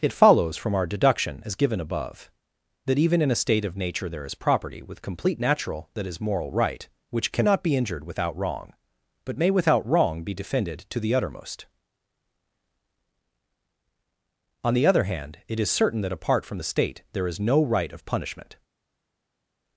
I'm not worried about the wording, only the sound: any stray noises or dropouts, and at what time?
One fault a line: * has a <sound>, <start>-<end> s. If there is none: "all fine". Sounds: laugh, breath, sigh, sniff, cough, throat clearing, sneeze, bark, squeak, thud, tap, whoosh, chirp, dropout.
all fine